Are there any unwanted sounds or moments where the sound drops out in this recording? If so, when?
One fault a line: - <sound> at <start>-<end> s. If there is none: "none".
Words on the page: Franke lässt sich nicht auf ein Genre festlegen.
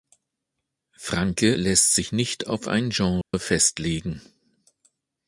- dropout at 3.2-3.3 s